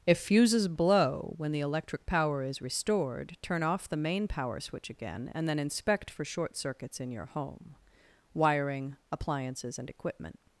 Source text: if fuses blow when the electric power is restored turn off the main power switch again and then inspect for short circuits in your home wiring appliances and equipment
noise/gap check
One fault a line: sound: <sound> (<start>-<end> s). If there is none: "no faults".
no faults